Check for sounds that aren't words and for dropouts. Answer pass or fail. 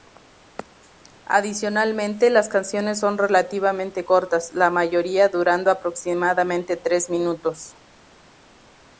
pass